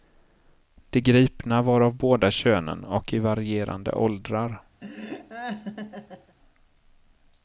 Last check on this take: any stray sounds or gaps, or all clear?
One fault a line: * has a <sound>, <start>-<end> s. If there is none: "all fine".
* has a laugh, 4.8-6.4 s